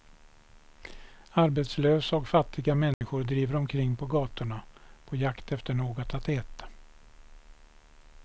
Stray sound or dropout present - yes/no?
yes